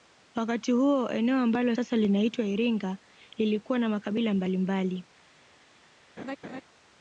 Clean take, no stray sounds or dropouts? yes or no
no